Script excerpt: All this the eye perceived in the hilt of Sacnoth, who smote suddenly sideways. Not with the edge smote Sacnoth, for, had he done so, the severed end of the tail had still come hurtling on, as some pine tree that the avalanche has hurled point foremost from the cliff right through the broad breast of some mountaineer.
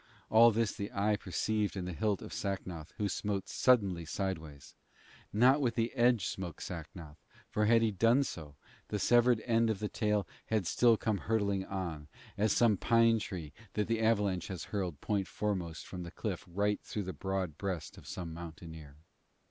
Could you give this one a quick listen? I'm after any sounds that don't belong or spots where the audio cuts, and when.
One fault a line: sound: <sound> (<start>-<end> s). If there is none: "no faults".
no faults